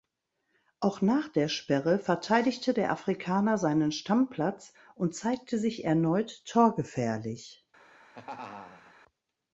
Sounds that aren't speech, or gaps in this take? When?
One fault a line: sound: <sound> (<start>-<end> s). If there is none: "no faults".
sound: laugh (7.8-8.9 s)